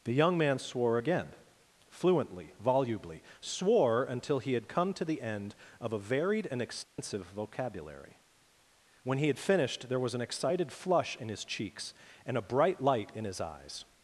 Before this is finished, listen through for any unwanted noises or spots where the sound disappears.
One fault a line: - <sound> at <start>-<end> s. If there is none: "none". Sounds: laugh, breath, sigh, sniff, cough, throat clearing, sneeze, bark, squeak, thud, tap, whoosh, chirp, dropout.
- dropout at 6.8-7.0 s